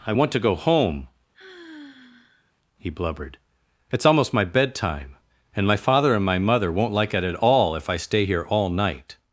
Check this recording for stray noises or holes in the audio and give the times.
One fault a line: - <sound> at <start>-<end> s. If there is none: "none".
- sigh at 1.3-2.5 s